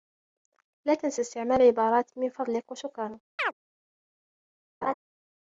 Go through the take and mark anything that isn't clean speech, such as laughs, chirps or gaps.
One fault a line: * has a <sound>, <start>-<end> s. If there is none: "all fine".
* has a chirp, 3.4-3.5 s
* has a laugh, 4.8-4.9 s